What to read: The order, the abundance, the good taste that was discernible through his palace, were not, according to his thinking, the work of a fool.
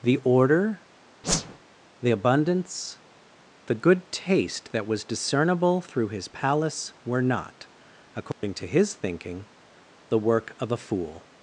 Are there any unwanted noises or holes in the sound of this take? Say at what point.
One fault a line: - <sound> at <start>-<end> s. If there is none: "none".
- whoosh at 1.2-1.6 s
- dropout at 8.3-8.4 s